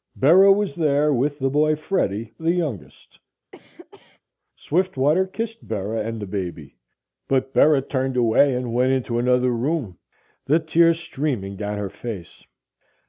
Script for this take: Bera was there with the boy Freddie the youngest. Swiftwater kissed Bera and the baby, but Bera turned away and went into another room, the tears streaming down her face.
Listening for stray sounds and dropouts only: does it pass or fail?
fail